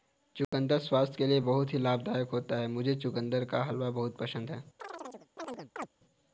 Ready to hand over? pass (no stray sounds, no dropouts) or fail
fail